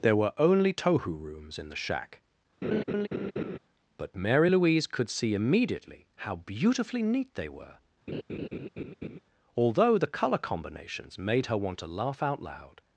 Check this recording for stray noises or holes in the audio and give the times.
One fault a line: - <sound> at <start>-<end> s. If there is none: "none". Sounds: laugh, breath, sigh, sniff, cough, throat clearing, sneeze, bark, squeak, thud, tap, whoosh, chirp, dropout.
- laugh at 2.6-3.6 s
- laugh at 8.1-9.2 s